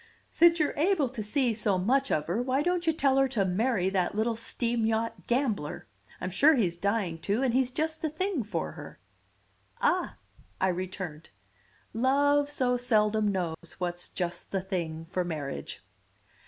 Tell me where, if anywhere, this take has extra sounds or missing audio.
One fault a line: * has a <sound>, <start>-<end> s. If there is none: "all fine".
* has a dropout, 13.5-13.6 s